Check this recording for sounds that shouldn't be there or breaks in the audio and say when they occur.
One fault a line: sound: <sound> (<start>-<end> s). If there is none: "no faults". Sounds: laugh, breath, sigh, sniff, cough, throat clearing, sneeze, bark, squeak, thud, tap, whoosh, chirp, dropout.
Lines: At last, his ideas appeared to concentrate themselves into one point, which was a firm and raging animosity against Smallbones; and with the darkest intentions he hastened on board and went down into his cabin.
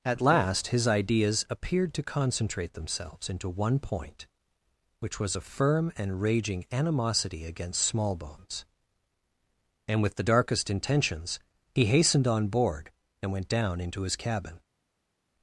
no faults